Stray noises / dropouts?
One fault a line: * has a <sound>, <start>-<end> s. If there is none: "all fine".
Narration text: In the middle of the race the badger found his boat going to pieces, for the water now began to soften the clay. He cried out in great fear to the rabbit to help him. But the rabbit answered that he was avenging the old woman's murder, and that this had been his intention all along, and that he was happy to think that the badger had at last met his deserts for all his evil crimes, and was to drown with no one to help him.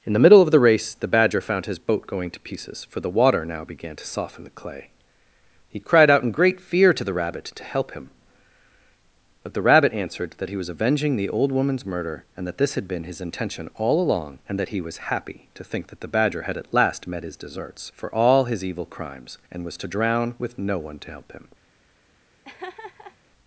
* has a laugh, 22.4-23.2 s